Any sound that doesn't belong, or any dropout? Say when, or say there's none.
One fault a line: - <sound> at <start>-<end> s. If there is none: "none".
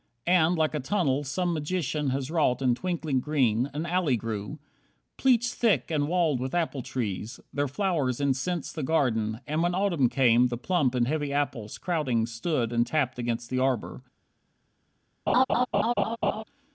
- laugh at 15.3-16.4 s